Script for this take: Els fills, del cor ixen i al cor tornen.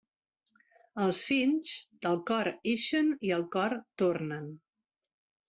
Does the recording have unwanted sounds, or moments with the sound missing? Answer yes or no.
no